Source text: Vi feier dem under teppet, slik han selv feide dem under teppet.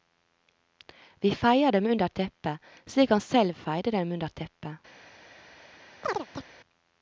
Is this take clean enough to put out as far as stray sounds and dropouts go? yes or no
no